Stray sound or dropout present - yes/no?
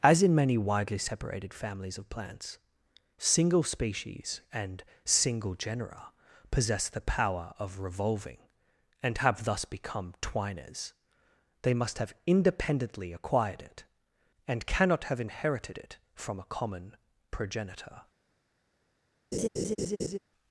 yes